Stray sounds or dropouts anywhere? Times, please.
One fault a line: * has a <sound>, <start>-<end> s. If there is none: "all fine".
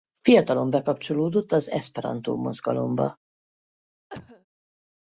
* has a cough, 4.1-4.5 s